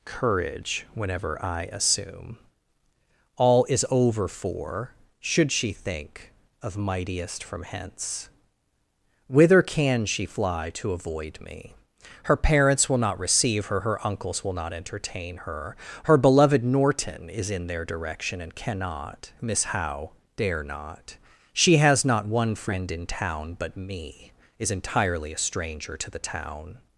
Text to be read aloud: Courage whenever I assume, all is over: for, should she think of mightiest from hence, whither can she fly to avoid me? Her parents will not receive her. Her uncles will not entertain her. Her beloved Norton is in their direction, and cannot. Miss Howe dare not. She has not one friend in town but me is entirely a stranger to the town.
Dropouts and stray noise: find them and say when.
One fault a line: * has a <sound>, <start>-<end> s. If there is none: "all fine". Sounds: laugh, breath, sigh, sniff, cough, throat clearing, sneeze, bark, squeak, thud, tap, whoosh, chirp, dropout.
all fine